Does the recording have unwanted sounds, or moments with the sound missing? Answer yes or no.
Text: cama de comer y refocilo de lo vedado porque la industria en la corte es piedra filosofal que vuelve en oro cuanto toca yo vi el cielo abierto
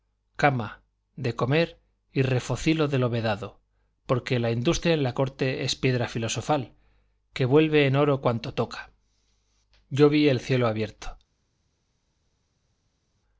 no